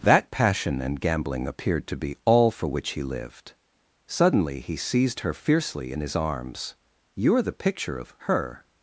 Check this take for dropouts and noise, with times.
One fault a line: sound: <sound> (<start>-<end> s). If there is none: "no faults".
no faults